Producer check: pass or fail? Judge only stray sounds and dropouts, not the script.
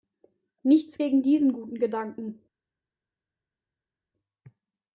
pass